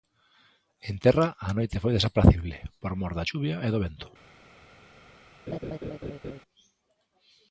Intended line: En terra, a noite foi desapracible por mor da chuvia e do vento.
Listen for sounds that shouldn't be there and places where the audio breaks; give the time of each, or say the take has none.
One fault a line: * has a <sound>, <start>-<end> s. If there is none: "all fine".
* has a laugh, 5.5-6.4 s